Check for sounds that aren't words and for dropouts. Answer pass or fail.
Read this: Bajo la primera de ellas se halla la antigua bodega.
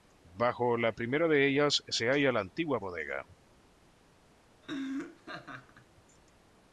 fail